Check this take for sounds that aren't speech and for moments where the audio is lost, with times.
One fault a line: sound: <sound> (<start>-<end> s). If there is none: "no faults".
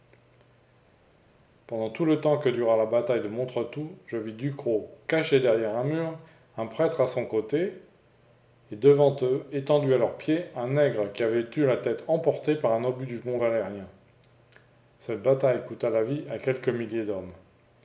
no faults